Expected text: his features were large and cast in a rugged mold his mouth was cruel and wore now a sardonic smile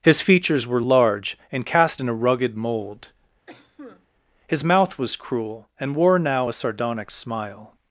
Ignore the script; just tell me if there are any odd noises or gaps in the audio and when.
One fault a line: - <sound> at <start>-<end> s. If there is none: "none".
- cough at 3.5-4.1 s